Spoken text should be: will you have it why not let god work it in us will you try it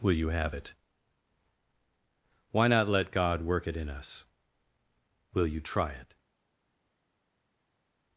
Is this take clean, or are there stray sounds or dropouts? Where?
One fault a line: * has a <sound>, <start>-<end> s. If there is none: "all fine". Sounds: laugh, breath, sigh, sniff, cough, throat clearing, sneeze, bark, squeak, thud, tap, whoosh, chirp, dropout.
all fine